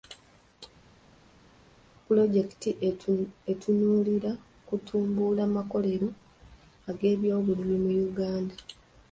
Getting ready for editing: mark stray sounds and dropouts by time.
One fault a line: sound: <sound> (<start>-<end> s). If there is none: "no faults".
no faults